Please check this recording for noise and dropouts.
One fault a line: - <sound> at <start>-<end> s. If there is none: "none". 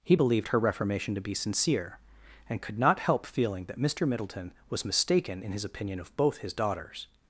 none